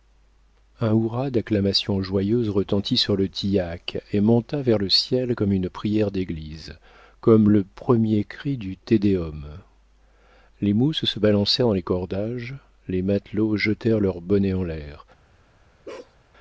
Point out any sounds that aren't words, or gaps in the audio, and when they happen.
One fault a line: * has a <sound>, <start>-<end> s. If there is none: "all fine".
* has a bark, 15.8-16.1 s